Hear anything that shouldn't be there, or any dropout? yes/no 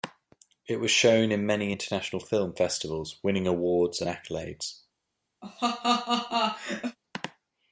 yes